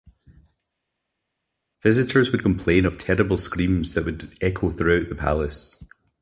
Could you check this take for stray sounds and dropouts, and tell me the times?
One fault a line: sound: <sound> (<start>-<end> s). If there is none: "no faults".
no faults